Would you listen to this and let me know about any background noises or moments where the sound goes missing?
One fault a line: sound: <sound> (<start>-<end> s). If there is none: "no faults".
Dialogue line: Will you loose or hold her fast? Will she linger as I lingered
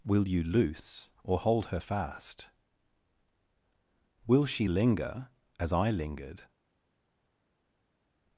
no faults